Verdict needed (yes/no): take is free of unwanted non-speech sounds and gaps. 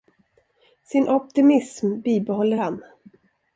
yes